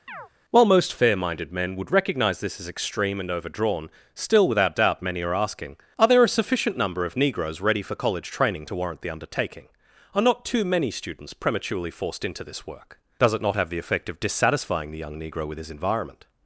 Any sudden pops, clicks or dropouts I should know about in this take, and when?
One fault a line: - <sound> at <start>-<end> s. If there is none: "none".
- chirp at 0.1-0.3 s